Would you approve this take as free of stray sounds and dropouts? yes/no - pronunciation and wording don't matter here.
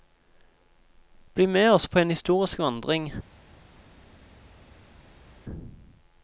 yes